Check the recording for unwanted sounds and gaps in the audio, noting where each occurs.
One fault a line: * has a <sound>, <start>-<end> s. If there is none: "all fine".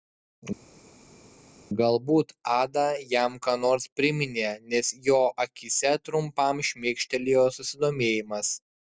all fine